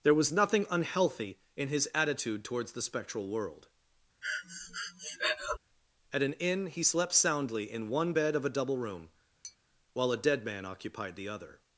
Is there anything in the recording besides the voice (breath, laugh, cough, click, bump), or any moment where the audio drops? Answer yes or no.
yes